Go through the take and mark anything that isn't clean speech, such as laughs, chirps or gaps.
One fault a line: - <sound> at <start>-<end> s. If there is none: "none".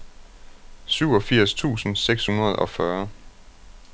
none